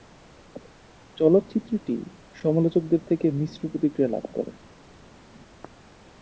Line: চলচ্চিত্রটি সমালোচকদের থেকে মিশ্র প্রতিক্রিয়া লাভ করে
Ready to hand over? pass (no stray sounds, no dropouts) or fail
pass